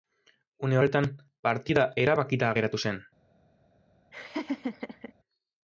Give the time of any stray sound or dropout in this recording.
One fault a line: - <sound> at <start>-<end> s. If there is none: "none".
- laugh at 4.1-5.1 s